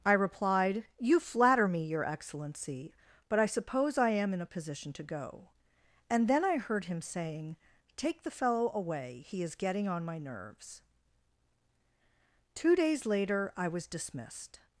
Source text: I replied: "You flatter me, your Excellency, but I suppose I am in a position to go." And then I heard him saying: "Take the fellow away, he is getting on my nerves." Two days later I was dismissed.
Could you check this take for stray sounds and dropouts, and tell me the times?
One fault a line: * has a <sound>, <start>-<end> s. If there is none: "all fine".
all fine